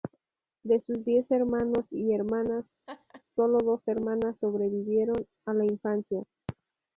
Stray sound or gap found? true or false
true